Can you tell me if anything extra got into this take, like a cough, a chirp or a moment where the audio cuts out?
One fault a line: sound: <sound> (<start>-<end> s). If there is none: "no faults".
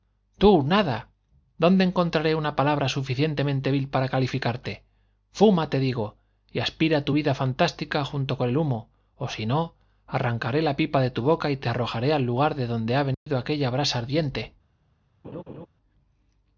sound: dropout (13.1-13.3 s)
sound: laugh (15.2-15.7 s)